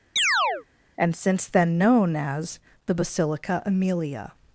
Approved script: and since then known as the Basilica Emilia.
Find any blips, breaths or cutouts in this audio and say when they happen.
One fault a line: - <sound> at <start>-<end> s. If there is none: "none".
- chirp at 0.2-0.7 s